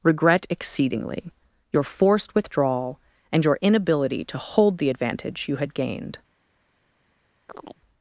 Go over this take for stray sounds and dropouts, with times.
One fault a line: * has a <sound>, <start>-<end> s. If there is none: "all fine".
* has a chirp, 7.5-7.8 s